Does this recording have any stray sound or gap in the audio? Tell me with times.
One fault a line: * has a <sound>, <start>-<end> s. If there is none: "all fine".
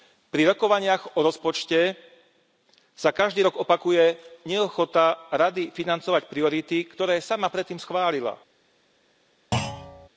* has a thud, 9.5-10.1 s